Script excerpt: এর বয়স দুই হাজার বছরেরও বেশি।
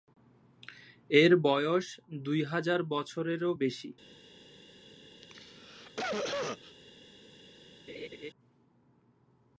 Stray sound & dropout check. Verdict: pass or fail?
fail